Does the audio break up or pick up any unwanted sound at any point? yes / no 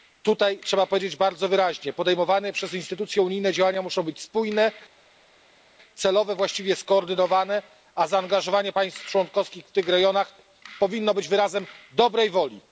no